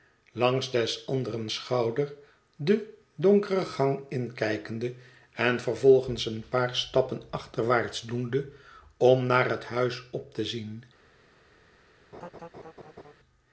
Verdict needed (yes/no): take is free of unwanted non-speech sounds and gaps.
no